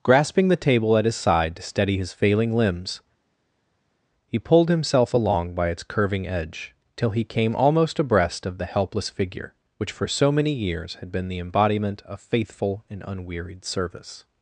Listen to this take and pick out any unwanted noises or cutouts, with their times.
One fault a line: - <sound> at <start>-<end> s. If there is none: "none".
none